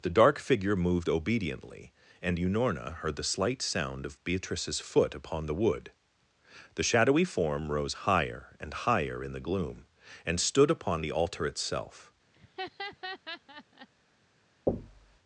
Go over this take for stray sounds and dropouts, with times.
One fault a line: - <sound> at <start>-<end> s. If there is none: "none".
- laugh at 12.3-13.9 s
- thud at 14.7-15.2 s